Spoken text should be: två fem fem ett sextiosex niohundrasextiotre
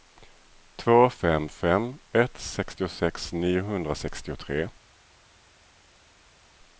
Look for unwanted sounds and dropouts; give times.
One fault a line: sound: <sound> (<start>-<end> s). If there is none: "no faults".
no faults